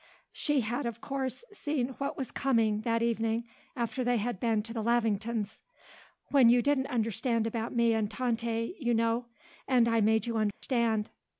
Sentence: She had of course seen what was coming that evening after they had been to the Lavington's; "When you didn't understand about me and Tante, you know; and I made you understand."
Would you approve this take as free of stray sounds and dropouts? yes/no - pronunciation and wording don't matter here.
no